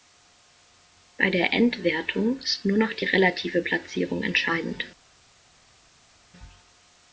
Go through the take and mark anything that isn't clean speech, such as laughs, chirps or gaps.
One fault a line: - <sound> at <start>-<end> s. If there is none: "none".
none